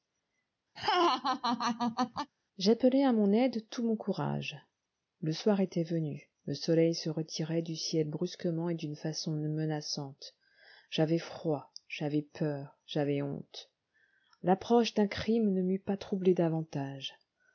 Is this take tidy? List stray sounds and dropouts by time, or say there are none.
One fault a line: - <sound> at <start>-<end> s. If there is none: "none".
- laugh at 0.8-2.3 s